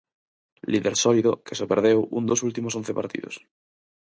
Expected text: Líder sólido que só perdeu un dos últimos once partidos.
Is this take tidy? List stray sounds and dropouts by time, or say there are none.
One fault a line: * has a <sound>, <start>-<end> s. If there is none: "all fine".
all fine